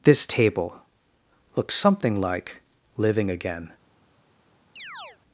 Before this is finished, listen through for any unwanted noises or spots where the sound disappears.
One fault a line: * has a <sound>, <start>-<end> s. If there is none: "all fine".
* has a chirp, 4.8-5.2 s